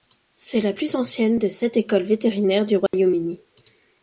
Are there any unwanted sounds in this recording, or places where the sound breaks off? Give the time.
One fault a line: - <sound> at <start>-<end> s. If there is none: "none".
- dropout at 2.9-2.9 s